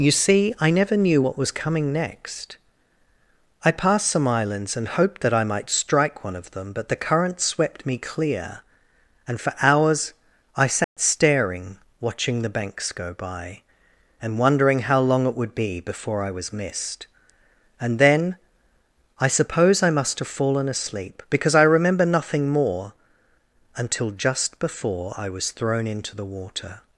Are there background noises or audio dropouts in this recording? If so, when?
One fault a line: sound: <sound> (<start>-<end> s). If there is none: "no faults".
sound: dropout (10.8-11.0 s)